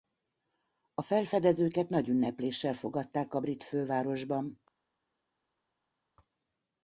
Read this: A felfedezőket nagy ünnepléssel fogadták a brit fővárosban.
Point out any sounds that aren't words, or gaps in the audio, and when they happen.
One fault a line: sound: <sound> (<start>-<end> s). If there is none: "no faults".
no faults